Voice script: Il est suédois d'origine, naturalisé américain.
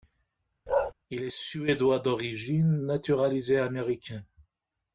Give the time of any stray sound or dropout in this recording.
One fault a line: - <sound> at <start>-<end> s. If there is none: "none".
- bark at 0.7-0.9 s